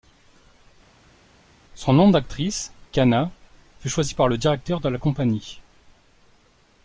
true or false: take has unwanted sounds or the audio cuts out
false